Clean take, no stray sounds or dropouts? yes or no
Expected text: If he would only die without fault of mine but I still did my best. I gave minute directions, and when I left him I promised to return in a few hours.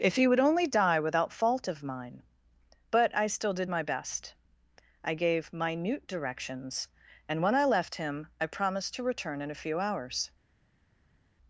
yes